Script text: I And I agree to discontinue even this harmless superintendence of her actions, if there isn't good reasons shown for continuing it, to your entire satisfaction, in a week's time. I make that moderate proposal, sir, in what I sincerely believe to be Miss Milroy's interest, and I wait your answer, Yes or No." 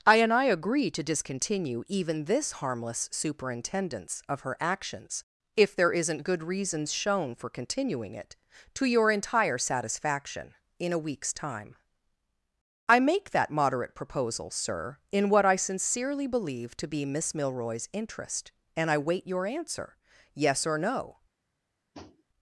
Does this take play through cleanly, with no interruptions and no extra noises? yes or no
no